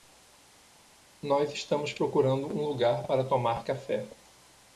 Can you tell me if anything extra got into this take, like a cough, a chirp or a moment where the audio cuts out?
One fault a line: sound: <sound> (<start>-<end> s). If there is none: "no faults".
no faults